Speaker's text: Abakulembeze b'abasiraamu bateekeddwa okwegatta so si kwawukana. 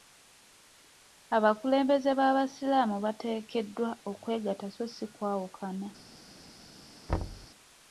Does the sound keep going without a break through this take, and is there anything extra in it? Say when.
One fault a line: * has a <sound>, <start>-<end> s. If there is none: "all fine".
* has a thud, 7.1-7.5 s